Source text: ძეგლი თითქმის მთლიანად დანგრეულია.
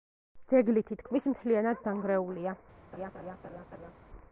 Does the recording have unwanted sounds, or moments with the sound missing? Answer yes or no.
yes